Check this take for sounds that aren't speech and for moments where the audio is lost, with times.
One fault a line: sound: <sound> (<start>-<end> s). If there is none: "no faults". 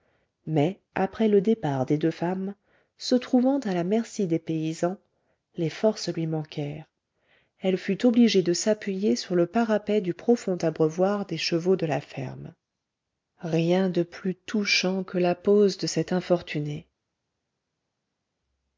no faults